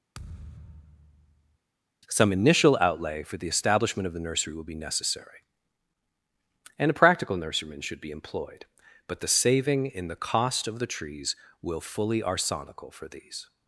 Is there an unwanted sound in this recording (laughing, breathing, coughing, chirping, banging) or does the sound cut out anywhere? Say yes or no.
yes